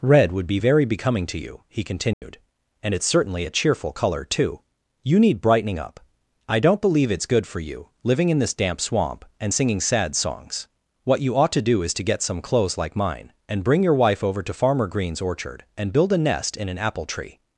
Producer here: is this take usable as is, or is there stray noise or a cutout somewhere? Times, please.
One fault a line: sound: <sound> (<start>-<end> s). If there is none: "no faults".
sound: dropout (2.1-2.2 s)